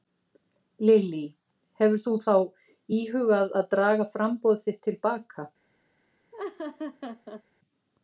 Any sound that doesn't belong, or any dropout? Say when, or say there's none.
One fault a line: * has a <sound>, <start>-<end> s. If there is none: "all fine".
* has a laugh, 6.3-7.4 s